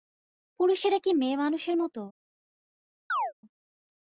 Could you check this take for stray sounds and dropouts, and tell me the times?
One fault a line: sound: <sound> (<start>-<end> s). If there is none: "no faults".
sound: chirp (3.1-3.3 s)